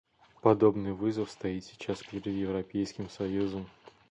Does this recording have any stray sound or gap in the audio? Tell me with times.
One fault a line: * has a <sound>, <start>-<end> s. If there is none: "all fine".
all fine